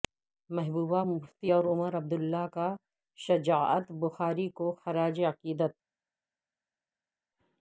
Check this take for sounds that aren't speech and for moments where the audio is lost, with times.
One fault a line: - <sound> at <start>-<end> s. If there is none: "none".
none